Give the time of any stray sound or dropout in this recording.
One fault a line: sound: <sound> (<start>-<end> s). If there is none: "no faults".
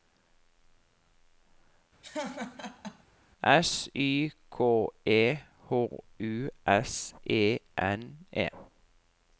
sound: laugh (2.0-3.0 s)